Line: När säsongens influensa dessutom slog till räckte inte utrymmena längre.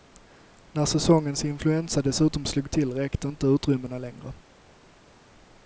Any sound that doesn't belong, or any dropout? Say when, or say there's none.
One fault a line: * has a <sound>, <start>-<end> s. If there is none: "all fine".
all fine